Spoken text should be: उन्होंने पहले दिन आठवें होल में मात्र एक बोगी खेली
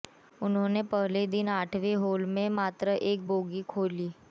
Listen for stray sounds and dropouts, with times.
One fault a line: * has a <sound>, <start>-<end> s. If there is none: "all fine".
all fine